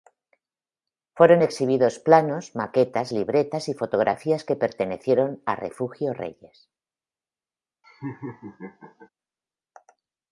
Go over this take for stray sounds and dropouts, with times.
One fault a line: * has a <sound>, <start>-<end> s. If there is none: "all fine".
* has a laugh, 7.8-9.1 s